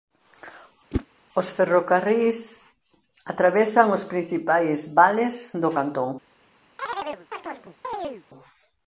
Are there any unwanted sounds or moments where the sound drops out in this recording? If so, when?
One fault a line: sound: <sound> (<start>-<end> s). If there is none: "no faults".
sound: whoosh (0.9-1.1 s)
sound: chirp (6.8-8.2 s)